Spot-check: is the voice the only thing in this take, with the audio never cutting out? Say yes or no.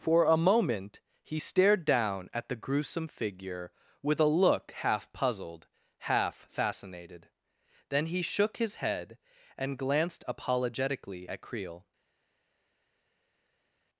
yes